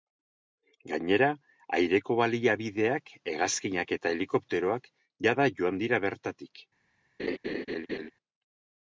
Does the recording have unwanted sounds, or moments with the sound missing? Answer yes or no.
yes